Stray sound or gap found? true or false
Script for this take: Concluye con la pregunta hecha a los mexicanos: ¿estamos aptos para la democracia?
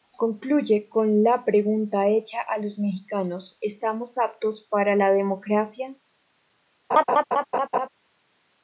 true